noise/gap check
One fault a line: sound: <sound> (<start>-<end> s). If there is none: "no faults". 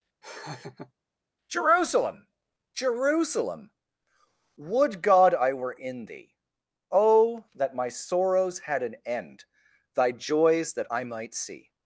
sound: laugh (0.2-0.9 s)